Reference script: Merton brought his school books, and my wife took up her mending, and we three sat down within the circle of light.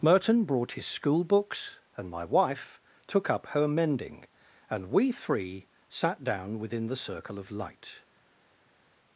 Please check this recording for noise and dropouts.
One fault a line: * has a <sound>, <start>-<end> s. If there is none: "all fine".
all fine